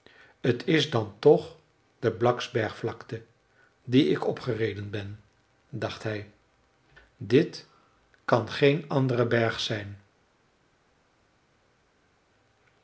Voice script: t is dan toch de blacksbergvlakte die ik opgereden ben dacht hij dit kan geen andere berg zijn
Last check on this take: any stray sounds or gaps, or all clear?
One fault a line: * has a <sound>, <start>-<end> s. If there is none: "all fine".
all fine